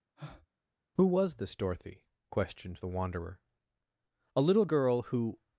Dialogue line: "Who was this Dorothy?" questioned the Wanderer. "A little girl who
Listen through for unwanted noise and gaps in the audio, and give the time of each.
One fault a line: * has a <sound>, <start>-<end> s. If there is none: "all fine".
* has a breath, 0.2-0.5 s